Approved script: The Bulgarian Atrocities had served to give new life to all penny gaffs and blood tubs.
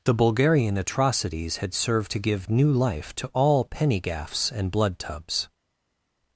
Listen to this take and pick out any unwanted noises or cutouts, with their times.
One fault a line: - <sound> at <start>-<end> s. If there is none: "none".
none